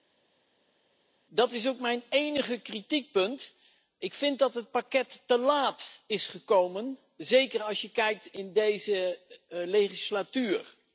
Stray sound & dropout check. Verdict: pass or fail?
pass